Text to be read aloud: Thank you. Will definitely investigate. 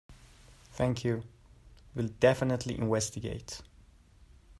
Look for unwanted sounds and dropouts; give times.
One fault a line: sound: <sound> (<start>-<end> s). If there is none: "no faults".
no faults